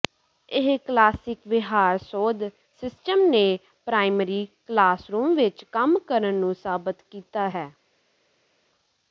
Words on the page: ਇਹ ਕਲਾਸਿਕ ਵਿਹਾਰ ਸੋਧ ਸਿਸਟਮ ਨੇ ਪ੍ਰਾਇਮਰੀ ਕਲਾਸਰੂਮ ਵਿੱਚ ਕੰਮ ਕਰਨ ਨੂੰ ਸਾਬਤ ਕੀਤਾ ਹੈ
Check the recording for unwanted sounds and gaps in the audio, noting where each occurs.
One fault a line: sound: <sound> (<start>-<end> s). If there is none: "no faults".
no faults